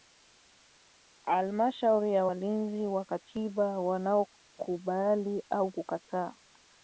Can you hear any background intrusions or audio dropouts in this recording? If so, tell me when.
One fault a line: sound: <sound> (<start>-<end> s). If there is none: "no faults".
no faults